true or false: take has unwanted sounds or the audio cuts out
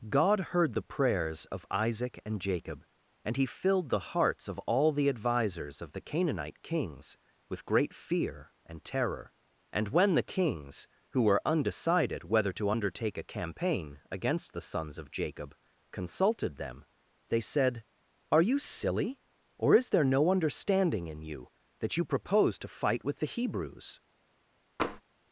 true